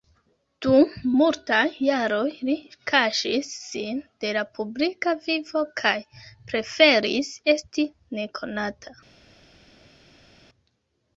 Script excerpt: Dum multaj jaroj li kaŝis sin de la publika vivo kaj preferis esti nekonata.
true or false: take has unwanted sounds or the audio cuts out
false